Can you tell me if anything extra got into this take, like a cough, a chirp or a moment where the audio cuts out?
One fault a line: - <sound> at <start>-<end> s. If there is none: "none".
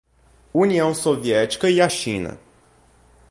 none